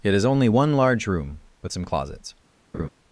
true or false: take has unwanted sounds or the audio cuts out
true